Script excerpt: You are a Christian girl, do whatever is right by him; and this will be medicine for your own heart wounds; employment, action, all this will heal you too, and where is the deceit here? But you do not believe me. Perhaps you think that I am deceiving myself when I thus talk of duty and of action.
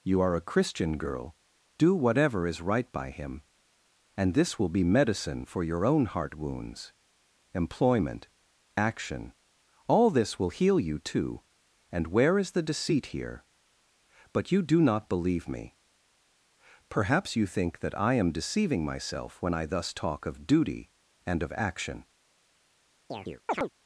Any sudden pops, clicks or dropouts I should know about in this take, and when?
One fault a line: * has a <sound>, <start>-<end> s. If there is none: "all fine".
* has a chirp, 23.1-23.7 s